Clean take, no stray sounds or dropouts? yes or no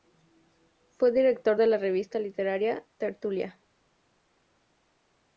yes